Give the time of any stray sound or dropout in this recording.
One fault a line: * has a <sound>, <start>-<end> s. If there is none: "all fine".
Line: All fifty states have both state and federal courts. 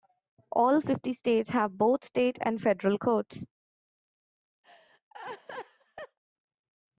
* has a laugh, 4.6-6.2 s